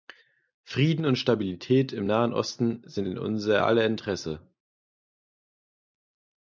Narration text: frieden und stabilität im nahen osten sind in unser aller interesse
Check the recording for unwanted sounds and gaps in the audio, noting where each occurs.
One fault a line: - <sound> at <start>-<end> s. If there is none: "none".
none